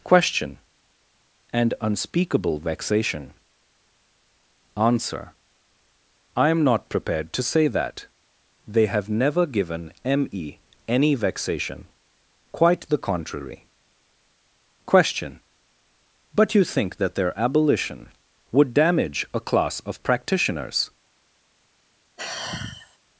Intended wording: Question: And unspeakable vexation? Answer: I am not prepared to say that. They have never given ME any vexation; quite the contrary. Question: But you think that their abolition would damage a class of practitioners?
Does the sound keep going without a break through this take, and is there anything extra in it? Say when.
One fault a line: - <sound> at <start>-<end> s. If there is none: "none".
- sigh at 22.2-23.0 s